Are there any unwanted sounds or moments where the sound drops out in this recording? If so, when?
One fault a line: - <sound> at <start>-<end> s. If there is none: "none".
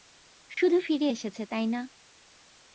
- dropout at 0.5-0.6 s